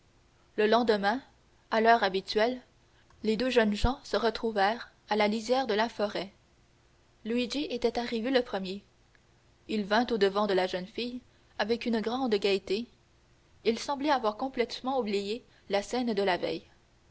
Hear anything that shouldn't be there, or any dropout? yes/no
no